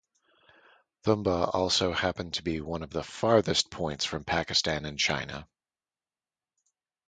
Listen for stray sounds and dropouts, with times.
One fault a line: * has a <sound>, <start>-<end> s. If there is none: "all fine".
all fine